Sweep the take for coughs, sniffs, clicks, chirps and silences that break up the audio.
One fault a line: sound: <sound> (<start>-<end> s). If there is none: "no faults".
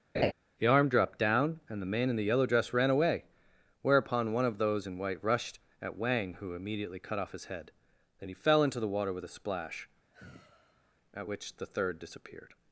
sound: laugh (0.1-0.3 s)
sound: sigh (10.1-10.9 s)